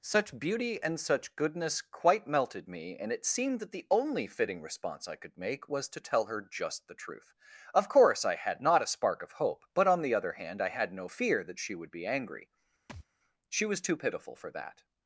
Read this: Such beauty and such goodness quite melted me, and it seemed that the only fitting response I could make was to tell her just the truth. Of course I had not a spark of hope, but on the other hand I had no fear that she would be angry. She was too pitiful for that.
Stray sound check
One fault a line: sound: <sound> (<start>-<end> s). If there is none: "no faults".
sound: thud (12.9-13.1 s)